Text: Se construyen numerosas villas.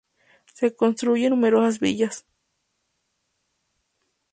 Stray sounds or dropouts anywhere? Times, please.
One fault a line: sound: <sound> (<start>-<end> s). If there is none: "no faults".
no faults